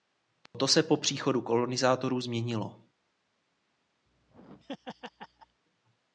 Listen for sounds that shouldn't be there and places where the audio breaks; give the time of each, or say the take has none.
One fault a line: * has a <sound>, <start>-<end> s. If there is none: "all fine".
* has a dropout, 0.5-0.5 s
* has a laugh, 4.1-5.6 s